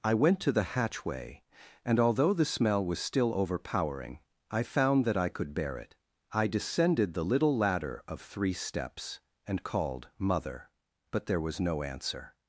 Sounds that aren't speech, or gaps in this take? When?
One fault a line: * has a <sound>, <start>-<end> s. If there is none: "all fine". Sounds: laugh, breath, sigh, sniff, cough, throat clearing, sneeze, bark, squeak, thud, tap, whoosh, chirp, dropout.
all fine